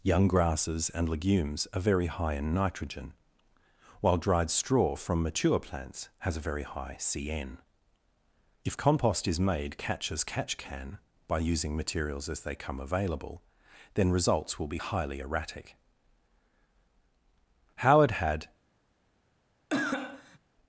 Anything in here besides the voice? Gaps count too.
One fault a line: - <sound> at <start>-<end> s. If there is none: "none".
- cough at 19.7-20.4 s